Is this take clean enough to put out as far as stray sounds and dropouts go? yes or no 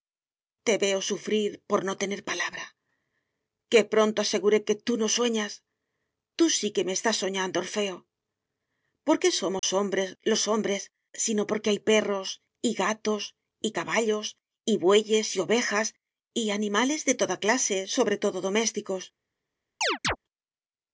no